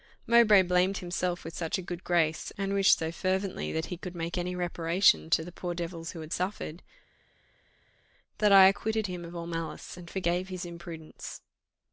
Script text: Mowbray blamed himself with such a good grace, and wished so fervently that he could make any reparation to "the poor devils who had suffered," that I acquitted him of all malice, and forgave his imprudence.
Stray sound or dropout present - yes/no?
no